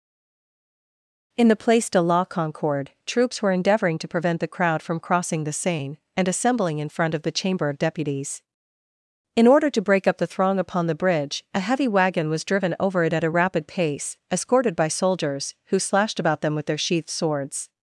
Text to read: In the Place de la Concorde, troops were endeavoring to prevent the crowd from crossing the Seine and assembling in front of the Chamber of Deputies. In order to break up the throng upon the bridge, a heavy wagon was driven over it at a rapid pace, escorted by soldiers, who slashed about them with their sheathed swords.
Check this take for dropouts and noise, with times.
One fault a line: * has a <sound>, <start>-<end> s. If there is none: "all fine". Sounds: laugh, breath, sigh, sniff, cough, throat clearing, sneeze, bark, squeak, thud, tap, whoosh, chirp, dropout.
all fine